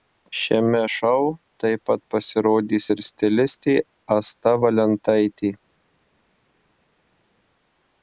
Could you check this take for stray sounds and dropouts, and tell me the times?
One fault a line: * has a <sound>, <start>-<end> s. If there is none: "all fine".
all fine